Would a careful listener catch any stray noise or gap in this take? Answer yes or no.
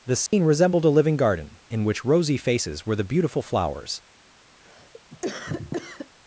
yes